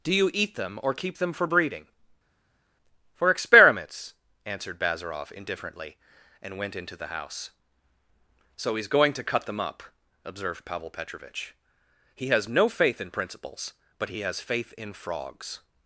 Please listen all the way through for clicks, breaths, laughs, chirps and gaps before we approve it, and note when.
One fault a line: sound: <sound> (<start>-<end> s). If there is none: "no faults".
no faults